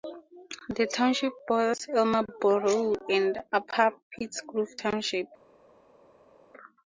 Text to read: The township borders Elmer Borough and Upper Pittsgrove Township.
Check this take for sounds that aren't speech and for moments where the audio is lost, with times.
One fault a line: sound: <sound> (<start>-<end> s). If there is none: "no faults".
no faults